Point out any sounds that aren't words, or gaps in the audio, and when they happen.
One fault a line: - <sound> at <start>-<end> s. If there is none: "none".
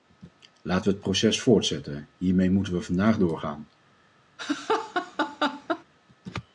- laugh at 4.4-5.8 s